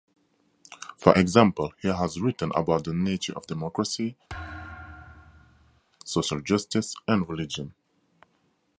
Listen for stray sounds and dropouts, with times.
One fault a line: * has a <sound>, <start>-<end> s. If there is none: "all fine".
* has a thud, 4.3-5.8 s